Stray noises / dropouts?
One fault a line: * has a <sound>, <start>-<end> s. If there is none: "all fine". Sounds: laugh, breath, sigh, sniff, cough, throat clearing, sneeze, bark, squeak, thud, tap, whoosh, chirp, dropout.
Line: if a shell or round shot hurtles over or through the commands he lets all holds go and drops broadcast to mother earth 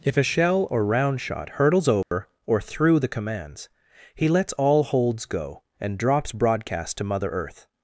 * has a dropout, 2.0-2.1 s